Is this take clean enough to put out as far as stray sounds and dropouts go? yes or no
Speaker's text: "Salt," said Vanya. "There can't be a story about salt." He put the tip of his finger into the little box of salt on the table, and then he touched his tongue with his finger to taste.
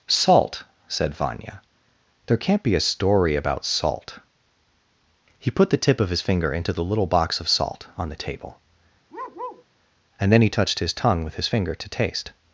no